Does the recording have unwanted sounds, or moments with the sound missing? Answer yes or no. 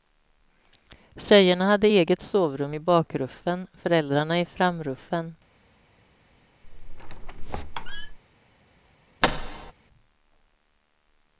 yes